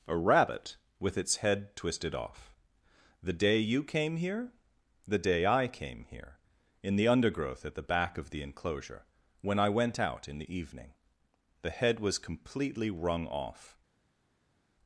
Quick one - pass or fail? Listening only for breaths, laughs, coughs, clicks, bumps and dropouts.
pass